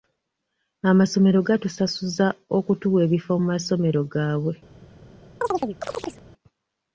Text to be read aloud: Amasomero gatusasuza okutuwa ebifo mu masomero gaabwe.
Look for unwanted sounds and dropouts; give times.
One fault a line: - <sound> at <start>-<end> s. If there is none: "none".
- chirp at 5.4-6.2 s